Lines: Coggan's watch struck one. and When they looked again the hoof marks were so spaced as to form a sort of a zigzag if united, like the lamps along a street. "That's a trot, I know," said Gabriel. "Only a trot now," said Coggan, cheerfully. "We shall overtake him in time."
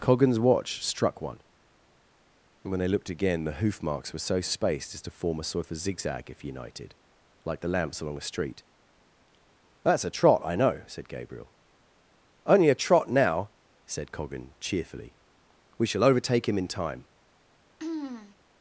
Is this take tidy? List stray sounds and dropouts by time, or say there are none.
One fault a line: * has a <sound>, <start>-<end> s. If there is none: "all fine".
* has a throat clearing, 17.8-18.4 s